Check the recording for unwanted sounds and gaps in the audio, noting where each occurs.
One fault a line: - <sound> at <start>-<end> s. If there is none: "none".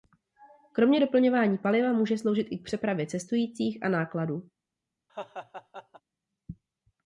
- laugh at 5.1-6.0 s